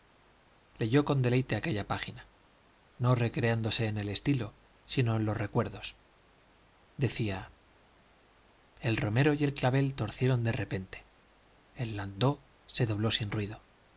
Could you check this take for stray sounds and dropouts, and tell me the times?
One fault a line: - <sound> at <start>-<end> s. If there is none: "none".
none